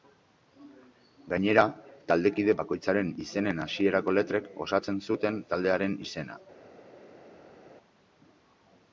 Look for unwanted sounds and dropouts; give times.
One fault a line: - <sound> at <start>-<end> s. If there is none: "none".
none